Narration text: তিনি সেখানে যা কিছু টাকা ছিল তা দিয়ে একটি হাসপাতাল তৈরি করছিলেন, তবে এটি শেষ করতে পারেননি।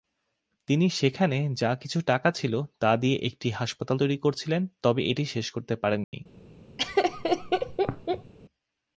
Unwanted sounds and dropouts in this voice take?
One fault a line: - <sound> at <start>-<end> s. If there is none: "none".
- dropout at 6.0-6.1 s
- laugh at 6.8-8.3 s